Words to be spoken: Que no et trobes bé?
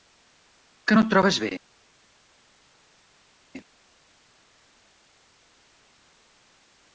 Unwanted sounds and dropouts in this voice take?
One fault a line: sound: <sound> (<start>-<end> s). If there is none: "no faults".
no faults